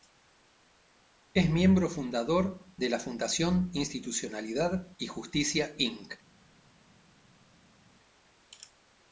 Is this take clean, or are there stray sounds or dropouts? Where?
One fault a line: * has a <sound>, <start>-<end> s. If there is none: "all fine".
all fine